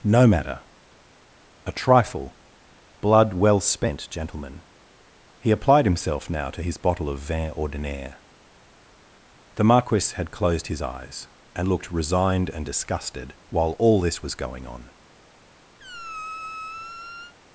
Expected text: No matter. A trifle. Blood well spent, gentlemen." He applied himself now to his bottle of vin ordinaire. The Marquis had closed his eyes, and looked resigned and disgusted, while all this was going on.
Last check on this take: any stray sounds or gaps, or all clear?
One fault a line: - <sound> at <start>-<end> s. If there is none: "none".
- squeak at 15.8-17.3 s